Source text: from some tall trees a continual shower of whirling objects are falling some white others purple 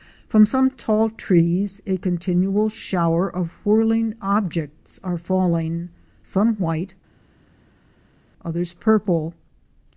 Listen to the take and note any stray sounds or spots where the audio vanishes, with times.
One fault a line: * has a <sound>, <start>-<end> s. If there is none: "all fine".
all fine